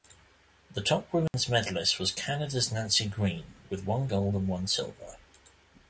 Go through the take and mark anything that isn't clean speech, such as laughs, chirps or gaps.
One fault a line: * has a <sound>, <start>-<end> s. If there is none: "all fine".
* has a dropout, 1.3-1.3 s